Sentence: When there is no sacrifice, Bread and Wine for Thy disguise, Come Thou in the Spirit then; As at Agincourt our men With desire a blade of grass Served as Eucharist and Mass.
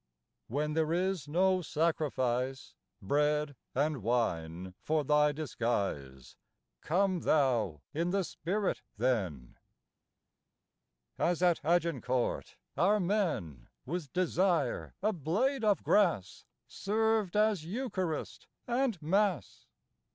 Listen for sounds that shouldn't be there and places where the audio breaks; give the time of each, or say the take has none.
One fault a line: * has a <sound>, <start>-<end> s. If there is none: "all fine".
all fine